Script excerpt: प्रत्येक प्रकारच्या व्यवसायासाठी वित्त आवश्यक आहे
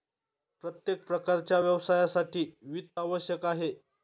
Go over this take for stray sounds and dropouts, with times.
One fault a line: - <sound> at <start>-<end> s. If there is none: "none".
none